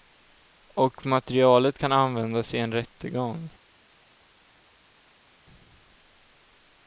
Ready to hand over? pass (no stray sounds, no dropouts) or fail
pass